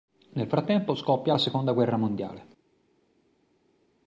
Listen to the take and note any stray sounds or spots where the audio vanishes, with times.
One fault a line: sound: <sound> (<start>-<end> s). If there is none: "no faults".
no faults